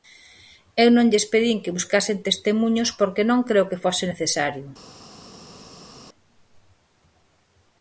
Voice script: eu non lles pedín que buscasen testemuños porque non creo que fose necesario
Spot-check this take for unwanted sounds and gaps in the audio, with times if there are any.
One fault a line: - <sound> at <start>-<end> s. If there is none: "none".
none